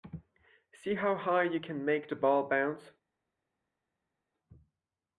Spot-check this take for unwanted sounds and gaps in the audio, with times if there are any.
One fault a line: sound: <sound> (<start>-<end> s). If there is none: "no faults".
no faults